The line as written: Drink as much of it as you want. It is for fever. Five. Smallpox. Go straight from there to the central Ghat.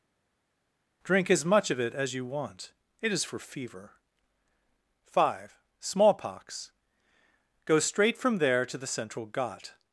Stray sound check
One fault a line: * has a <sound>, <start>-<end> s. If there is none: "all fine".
all fine